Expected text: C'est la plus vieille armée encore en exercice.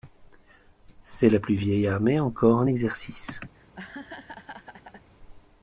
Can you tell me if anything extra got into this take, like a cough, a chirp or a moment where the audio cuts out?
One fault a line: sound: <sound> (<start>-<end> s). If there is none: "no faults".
sound: laugh (3.5-5.1 s)